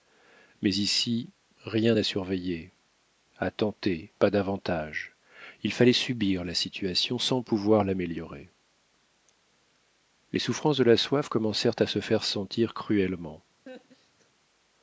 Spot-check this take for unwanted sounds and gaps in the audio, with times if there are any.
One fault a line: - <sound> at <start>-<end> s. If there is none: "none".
- laugh at 13.7-14.3 s